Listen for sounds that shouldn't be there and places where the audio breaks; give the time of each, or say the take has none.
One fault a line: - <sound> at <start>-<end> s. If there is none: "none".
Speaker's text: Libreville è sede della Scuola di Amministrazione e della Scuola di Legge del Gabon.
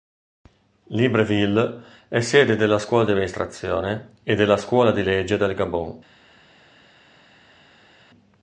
none